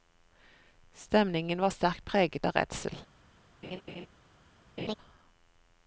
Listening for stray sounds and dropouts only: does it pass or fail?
fail